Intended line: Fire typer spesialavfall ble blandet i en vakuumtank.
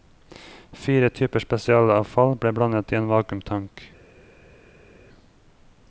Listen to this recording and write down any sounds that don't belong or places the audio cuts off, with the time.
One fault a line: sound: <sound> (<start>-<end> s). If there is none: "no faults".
no faults